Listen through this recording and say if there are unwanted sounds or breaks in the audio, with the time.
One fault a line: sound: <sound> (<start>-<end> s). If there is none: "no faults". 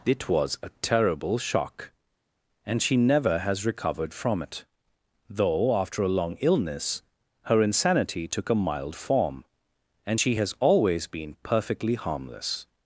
no faults